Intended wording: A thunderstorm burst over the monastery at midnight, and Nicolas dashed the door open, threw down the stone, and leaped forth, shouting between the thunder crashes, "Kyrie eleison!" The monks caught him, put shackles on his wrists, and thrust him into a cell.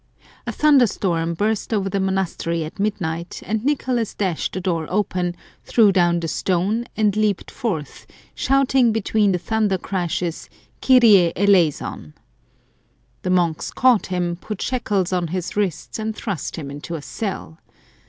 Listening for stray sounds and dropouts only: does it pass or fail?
pass